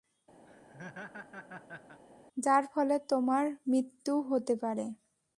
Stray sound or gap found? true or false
true